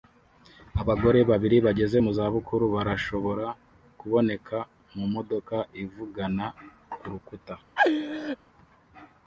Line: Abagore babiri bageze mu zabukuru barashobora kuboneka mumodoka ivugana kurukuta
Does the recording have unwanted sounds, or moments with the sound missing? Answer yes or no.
yes